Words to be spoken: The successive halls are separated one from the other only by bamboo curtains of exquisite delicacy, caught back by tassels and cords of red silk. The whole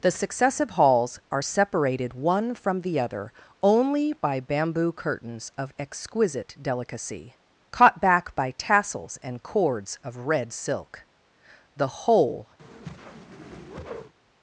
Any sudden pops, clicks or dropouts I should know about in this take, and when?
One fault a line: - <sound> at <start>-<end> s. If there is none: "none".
- whoosh at 12.6-14.1 s